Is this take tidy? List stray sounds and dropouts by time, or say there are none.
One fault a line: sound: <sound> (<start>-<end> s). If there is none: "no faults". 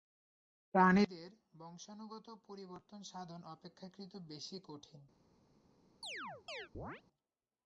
sound: chirp (6.0-7.0 s)